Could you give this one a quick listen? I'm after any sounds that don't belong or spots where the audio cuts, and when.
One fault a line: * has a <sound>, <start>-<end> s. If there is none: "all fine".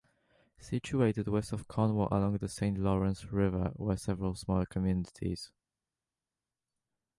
all fine